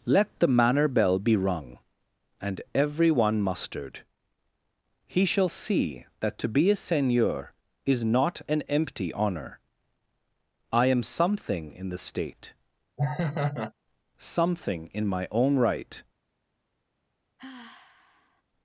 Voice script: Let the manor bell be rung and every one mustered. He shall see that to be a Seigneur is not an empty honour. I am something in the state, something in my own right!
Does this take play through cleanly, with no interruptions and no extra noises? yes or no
no